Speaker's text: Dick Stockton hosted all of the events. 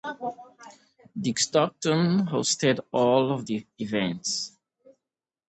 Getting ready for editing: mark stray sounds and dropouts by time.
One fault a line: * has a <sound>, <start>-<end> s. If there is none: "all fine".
all fine